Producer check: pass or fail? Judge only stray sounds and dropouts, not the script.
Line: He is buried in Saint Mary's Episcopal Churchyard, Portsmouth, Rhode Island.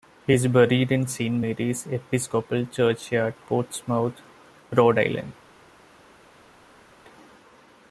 pass